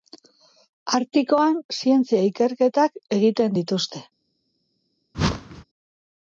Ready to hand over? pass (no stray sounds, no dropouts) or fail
fail